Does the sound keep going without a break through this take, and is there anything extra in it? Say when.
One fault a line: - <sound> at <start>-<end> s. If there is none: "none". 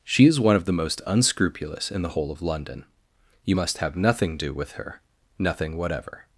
none